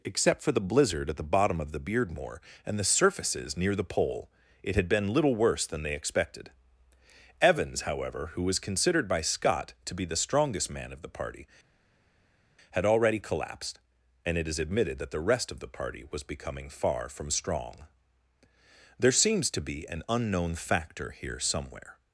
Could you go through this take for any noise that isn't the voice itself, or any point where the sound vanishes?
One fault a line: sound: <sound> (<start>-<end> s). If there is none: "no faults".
no faults